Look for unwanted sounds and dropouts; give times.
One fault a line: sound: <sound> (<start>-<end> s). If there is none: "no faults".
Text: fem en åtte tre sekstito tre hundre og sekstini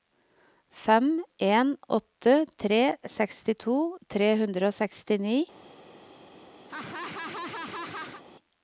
sound: laugh (6.7-8.2 s)